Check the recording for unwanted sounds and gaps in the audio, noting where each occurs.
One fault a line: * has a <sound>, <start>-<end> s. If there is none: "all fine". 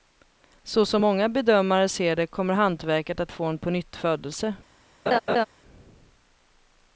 * has a laugh, 5.1-5.5 s